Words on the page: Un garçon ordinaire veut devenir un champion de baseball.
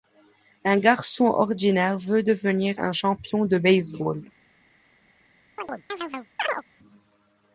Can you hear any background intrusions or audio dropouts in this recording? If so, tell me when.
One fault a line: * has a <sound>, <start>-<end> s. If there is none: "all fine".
* has a chirp, 5.6-6.6 s